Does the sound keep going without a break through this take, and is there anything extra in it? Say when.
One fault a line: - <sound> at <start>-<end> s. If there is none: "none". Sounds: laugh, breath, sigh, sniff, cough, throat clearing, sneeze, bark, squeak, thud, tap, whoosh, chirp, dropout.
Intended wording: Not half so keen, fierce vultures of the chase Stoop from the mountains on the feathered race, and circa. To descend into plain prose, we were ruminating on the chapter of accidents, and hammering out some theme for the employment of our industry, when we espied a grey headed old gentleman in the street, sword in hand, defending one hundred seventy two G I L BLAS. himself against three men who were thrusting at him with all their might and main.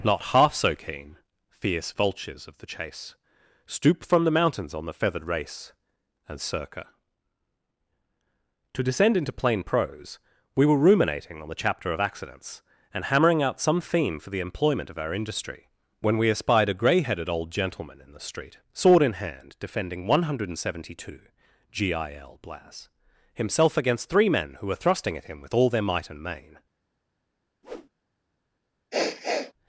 - whoosh at 27.6-27.9 s
- sniff at 28.9-29.5 s